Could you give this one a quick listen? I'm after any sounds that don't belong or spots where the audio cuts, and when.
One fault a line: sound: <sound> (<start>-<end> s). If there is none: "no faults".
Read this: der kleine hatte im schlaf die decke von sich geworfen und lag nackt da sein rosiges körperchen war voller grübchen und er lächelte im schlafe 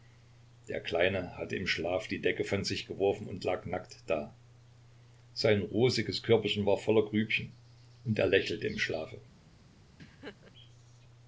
sound: laugh (10.0-10.5 s)